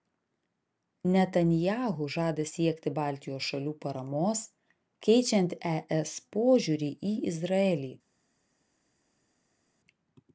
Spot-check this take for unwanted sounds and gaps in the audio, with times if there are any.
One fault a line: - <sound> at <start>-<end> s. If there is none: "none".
none